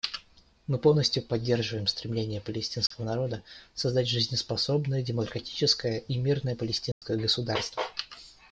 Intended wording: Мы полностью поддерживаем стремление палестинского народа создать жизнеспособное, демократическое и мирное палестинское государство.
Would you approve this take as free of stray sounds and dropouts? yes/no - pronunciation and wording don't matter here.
no